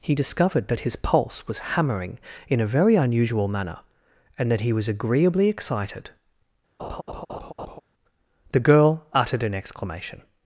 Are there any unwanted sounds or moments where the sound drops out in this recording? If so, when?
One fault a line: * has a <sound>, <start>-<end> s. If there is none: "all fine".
* has a laugh, 6.8-7.8 s